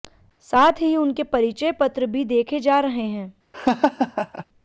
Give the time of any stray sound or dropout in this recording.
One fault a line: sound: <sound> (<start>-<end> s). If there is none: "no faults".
sound: laugh (3.5-4.4 s)